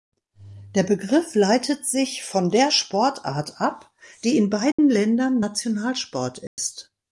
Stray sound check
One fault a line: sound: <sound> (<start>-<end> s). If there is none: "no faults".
sound: dropout (4.7-4.8 s)
sound: dropout (6.5-6.6 s)